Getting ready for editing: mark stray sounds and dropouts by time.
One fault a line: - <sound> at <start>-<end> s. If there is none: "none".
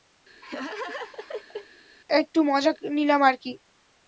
- laugh at 0.4-1.7 s